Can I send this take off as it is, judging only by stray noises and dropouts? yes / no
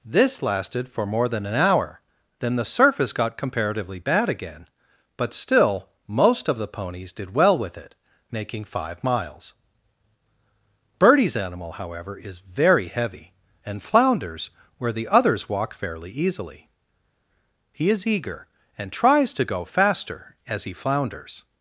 yes